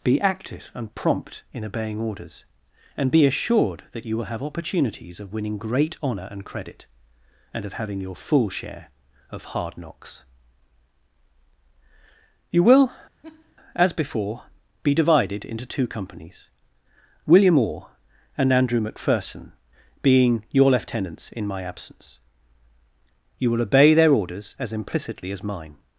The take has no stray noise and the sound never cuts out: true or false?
false